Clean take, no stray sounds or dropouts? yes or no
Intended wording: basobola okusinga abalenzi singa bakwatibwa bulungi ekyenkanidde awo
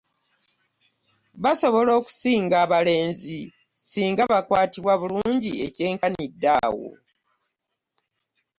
yes